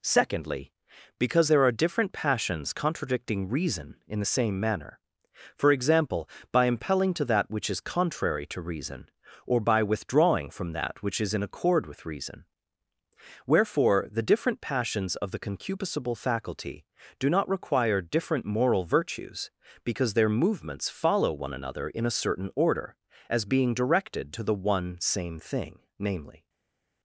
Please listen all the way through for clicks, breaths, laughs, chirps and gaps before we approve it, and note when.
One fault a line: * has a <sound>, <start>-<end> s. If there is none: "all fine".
all fine